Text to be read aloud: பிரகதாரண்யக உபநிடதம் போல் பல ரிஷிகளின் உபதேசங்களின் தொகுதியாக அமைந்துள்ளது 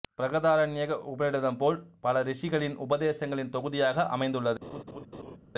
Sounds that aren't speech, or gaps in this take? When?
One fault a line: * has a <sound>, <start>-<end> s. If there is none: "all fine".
* has a laugh, 4.6-5.4 s